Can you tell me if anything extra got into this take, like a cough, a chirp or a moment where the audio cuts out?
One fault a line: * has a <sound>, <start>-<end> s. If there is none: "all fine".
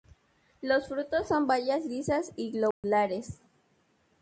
* has a dropout, 2.7-2.8 s